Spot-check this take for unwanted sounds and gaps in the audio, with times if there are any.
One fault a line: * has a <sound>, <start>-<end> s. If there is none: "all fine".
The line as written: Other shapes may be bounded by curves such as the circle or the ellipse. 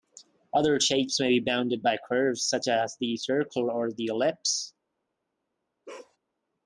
* has a bark, 5.9-6.2 s